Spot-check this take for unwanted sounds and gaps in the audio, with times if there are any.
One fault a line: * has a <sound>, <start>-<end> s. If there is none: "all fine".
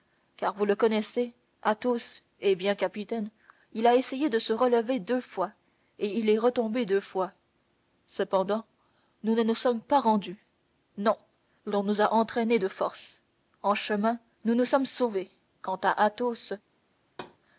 * has a thud, 17.0-17.4 s